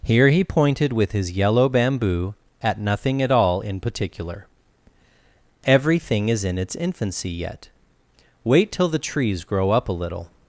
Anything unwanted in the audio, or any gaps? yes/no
no